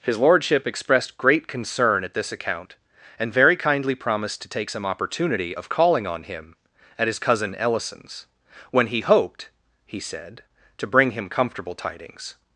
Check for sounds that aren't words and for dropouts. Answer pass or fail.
pass